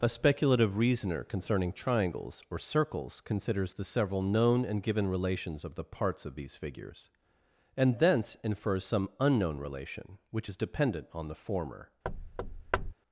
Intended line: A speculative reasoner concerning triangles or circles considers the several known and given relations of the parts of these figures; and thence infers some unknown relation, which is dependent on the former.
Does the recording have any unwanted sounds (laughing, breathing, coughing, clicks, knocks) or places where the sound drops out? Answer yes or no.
yes